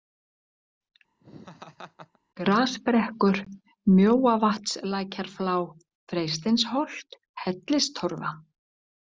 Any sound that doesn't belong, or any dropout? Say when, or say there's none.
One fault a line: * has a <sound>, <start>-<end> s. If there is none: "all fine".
* has a laugh, 1.2-2.2 s